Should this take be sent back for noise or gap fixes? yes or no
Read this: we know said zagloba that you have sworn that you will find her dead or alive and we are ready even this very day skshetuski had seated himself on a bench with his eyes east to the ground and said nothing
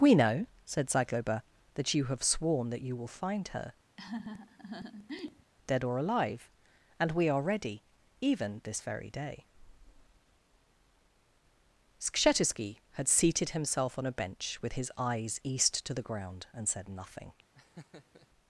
yes